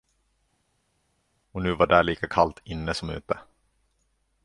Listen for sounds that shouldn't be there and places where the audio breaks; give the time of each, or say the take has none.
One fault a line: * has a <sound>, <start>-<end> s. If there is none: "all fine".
all fine